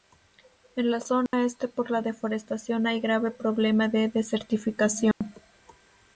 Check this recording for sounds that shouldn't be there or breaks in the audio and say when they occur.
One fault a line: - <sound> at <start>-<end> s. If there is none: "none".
- dropout at 1.3-1.3 s
- dropout at 5.1-5.2 s